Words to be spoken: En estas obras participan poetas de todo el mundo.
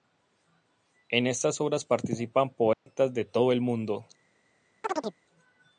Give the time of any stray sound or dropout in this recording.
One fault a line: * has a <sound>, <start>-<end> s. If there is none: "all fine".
* has a dropout, 2.7-2.9 s
* has a chirp, 4.8-5.2 s